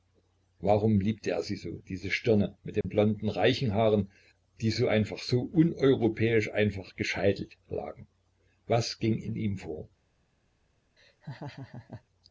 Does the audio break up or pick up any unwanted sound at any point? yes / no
yes